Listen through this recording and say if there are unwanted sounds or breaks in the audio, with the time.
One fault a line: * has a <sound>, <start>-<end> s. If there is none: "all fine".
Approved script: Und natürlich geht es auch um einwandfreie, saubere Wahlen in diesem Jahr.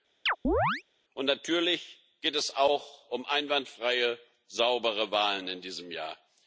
* has a chirp, 0.3-0.8 s